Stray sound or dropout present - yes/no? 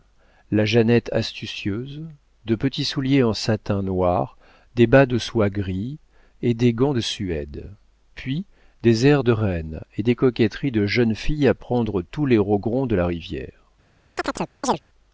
yes